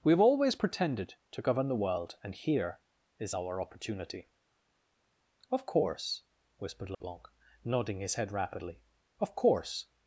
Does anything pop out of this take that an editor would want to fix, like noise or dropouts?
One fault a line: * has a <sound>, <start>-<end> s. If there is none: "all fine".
* has a dropout, 6.9-7.0 s